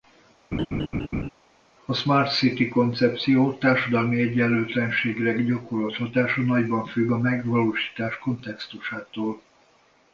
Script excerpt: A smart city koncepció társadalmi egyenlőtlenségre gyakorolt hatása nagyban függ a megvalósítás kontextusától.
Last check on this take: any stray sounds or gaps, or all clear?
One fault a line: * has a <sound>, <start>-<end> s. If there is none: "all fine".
* has a laugh, 0.5-1.3 s